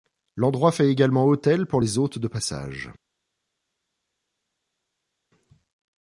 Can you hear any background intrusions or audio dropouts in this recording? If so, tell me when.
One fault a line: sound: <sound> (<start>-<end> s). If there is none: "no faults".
no faults